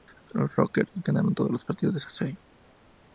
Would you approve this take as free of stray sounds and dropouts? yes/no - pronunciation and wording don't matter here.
yes